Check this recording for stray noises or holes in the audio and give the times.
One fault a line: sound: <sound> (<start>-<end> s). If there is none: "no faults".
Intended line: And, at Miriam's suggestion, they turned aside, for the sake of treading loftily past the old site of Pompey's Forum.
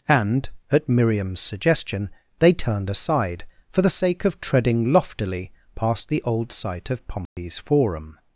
sound: dropout (7.3-7.4 s)